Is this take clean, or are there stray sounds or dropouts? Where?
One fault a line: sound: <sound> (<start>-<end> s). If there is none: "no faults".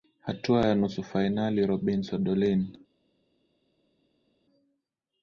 no faults